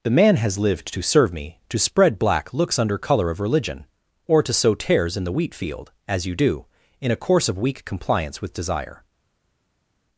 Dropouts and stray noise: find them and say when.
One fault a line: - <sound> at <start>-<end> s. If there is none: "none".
none